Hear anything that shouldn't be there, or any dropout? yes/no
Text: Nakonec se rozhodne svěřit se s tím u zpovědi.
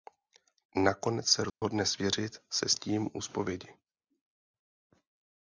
yes